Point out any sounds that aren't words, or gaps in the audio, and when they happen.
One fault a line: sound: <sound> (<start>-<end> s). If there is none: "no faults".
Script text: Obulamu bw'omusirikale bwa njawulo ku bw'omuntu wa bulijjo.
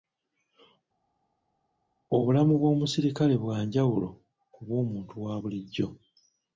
no faults